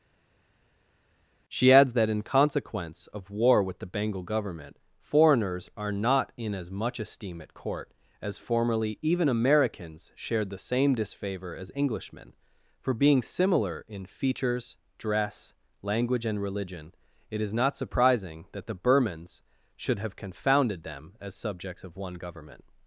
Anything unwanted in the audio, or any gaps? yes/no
no